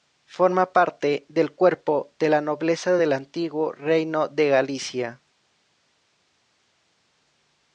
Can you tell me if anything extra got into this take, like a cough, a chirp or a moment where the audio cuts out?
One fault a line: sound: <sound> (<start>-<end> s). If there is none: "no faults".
no faults